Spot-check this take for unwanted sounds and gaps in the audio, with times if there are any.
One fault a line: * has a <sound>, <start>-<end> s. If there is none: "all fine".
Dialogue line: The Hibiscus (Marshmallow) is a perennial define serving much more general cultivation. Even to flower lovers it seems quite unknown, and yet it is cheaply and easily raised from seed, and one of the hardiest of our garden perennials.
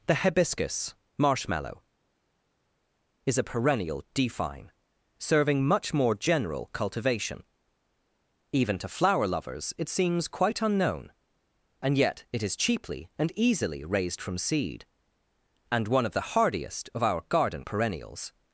all fine